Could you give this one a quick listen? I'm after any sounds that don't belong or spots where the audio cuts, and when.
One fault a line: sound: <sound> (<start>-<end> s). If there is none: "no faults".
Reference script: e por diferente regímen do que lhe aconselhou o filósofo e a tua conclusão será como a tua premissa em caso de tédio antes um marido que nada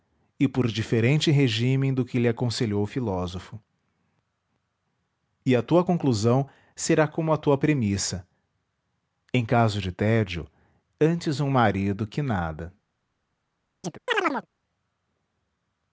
sound: chirp (13.8-14.5 s)